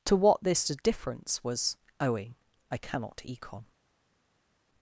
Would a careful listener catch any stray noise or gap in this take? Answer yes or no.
no